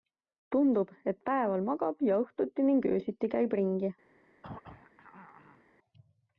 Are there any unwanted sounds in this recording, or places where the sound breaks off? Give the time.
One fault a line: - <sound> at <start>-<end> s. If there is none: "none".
- throat clearing at 4.4-5.6 s